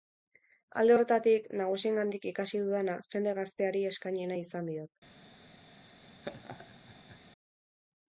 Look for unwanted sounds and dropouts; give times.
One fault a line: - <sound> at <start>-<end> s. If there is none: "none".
- laugh at 6.2-7.2 s